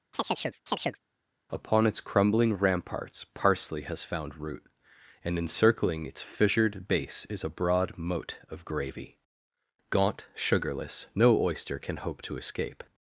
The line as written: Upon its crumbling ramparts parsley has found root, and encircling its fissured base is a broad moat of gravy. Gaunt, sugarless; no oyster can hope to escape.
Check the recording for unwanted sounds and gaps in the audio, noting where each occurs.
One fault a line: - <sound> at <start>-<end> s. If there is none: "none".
- chirp at 0.1-1.0 s